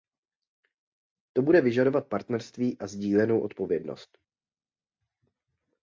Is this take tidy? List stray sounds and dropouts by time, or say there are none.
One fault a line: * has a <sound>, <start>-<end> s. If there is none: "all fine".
all fine